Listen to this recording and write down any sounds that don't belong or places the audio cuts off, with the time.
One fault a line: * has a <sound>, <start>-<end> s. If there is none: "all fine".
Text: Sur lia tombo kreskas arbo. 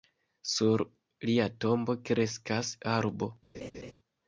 * has a laugh, 3.5-3.9 s